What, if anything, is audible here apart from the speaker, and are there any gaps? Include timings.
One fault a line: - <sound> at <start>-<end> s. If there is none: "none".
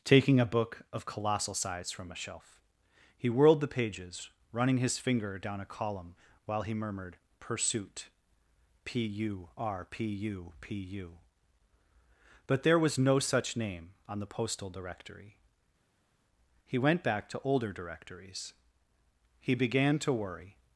none